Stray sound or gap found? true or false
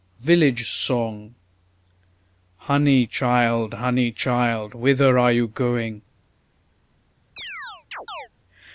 true